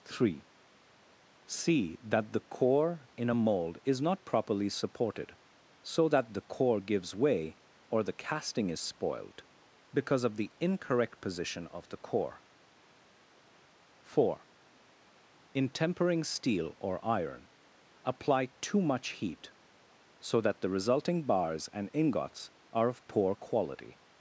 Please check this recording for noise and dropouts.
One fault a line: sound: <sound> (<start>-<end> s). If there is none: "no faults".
no faults